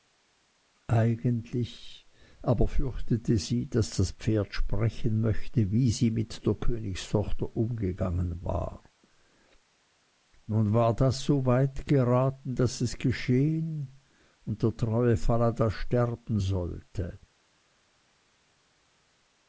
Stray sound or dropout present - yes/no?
no